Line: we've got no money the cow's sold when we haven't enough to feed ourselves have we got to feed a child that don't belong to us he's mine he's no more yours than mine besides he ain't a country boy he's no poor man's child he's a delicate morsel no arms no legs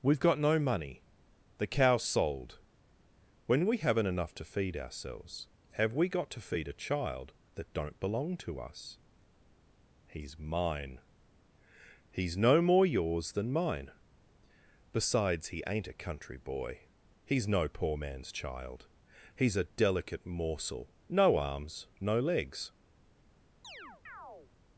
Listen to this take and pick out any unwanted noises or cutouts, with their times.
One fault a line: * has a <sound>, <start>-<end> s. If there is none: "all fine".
* has a chirp, 23.6-24.5 s